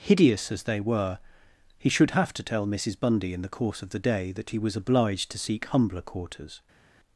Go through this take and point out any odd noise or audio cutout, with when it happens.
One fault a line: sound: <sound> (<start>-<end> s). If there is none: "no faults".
no faults